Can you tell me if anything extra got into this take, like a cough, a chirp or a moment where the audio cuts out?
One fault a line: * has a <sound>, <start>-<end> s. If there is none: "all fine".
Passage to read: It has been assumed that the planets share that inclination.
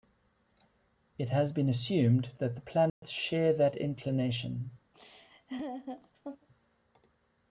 * has a dropout, 2.9-3.0 s
* has a laugh, 4.9-6.5 s